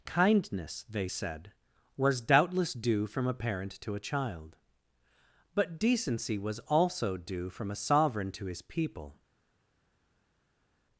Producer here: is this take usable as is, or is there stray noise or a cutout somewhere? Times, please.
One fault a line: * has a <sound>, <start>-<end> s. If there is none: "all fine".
all fine